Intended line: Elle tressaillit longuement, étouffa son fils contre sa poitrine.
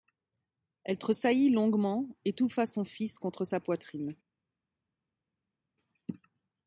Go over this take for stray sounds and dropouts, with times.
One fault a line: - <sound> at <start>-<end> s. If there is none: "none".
none